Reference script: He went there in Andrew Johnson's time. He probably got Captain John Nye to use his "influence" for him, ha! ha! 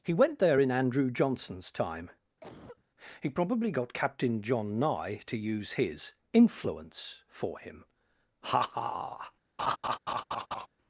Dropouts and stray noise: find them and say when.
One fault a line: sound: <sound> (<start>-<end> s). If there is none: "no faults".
sound: cough (2.4-2.8 s)
sound: laugh (9.6-10.7 s)